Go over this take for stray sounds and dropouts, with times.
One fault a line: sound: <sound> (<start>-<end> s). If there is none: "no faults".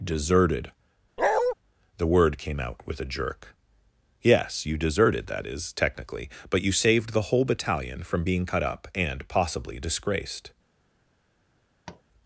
sound: bark (1.2-1.5 s)
sound: tap (11.9-12.0 s)